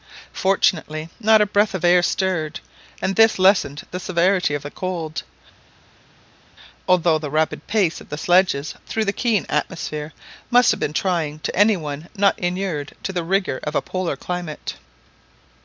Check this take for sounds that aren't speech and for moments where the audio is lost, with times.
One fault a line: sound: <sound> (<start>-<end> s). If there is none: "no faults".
no faults